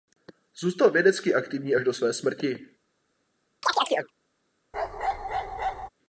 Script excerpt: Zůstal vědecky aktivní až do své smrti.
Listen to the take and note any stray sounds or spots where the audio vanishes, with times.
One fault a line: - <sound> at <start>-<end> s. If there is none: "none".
- chirp at 3.6-4.1 s
- bark at 4.7-5.9 s